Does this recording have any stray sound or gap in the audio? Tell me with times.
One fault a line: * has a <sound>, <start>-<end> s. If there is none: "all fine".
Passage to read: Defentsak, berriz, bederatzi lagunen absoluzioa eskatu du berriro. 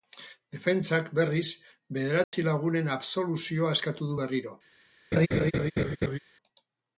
* has a dropout, 2.2-2.3 s
* has a laugh, 5.1-6.2 s